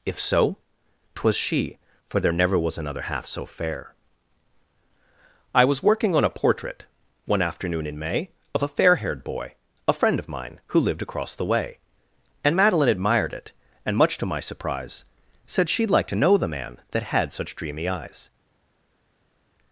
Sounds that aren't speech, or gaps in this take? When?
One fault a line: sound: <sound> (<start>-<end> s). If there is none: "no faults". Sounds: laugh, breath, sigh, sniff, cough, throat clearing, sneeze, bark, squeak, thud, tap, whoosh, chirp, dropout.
no faults